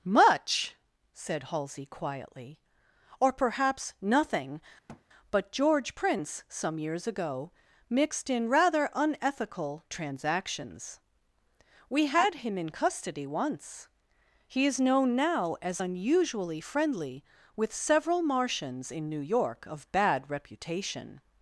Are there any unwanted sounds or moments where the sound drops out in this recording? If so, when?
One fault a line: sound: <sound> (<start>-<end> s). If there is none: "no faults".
sound: thud (4.9-5.0 s)